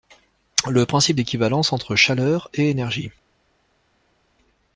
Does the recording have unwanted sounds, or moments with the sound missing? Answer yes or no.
no